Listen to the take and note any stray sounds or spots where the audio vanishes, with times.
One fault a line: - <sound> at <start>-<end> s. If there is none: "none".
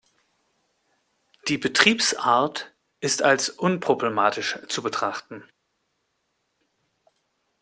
none